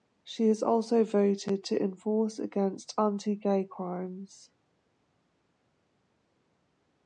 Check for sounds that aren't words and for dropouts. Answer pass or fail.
pass